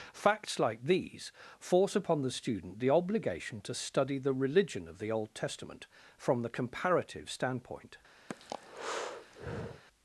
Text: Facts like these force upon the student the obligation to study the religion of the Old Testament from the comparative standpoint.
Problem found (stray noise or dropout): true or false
true